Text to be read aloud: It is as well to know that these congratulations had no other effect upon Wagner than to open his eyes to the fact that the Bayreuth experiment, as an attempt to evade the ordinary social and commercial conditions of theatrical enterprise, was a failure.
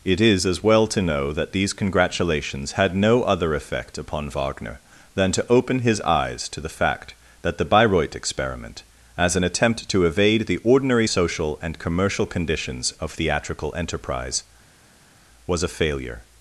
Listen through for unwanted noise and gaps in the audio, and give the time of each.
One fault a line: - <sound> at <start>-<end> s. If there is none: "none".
none